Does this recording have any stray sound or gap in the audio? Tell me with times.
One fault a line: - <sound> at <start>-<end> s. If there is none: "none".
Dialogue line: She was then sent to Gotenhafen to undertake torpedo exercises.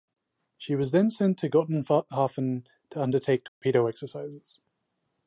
- dropout at 3.5-3.6 s